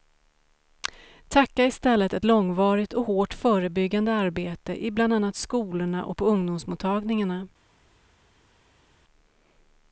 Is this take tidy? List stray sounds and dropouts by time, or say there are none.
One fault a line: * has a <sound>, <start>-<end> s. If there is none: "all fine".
all fine